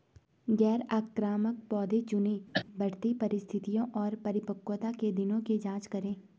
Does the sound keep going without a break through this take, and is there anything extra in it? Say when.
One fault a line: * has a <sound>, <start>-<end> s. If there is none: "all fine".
* has a cough, 2.5-2.7 s